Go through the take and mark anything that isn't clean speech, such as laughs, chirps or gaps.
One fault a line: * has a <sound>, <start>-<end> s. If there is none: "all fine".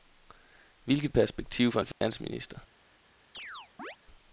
* has a dropout, 1.9-2.0 s
* has a chirp, 3.3-4.0 s